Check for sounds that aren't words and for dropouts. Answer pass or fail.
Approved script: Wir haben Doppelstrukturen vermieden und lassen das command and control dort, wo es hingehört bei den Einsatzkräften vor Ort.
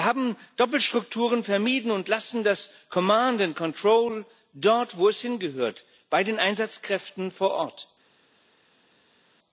pass